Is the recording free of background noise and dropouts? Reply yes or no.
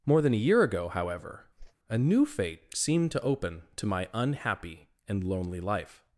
no